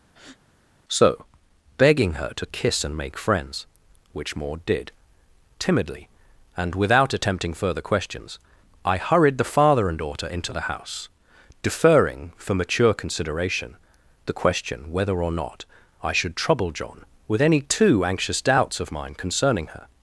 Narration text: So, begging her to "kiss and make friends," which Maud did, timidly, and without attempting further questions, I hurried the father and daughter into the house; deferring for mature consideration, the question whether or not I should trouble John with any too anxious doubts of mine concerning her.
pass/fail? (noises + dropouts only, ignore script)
fail